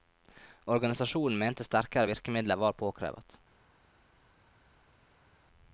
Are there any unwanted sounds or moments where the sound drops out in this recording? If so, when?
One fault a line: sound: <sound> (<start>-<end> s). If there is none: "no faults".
no faults